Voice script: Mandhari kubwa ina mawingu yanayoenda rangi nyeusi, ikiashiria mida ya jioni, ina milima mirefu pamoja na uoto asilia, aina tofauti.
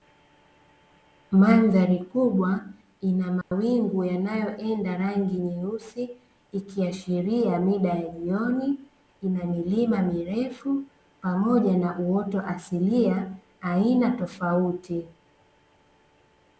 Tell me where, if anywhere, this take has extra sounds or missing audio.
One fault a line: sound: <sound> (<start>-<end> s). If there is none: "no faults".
sound: dropout (3.4-3.5 s)